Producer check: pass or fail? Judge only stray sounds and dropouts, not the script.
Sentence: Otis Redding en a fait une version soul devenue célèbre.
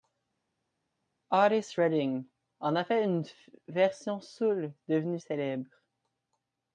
pass